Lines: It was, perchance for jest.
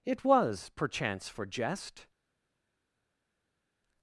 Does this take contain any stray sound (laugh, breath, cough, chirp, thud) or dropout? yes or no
no